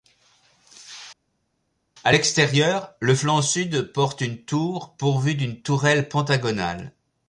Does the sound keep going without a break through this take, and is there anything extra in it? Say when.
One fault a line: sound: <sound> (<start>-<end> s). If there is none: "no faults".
no faults